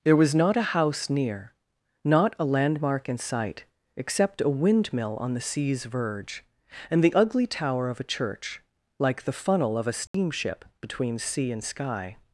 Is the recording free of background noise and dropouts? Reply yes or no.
no